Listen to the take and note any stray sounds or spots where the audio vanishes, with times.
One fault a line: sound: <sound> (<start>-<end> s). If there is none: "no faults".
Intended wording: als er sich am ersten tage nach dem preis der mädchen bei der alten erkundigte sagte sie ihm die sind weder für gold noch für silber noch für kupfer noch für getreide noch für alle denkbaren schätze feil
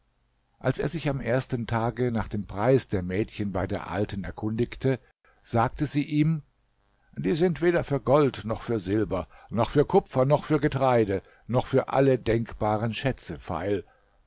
no faults